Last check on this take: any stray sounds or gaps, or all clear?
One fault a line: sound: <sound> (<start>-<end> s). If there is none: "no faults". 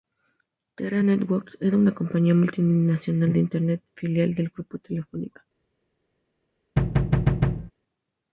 sound: thud (6.8-7.7 s)